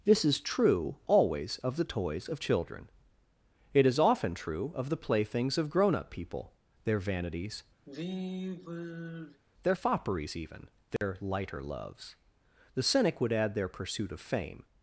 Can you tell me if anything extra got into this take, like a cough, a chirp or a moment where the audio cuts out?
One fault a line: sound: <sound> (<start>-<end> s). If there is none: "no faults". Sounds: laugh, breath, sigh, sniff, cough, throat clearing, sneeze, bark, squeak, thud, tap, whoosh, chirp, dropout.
sound: sigh (7.9-9.4 s)
sound: dropout (11.0-11.0 s)